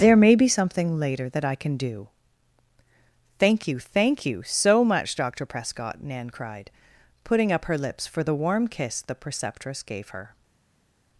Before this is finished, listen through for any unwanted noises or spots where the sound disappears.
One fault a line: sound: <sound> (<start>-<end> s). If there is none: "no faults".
no faults